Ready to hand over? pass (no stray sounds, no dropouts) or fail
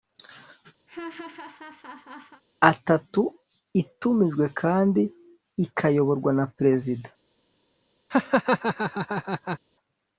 fail